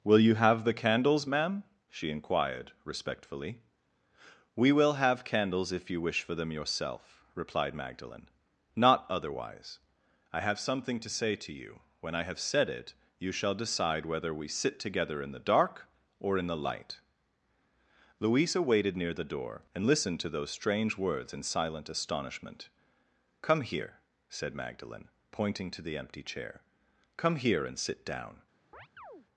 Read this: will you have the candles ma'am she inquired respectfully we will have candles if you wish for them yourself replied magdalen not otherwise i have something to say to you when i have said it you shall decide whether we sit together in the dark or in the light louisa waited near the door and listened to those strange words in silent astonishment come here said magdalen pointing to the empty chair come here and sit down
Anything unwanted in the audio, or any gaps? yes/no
yes